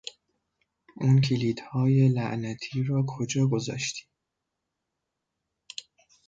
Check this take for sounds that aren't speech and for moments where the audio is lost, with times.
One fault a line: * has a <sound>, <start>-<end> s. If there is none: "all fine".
all fine